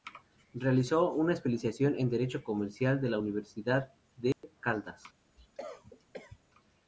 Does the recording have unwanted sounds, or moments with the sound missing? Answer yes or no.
yes